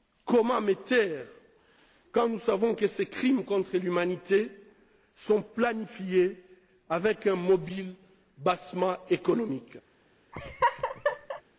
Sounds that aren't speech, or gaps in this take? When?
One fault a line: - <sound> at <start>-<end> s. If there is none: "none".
- laugh at 10.3-11.4 s